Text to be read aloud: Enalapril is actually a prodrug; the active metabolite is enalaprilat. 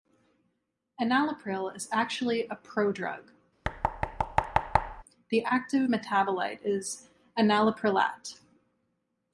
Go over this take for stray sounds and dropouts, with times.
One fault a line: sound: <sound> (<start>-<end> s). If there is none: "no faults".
sound: thud (3.6-5.0 s)